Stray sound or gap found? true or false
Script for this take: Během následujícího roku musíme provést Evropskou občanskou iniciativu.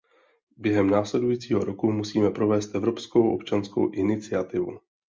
false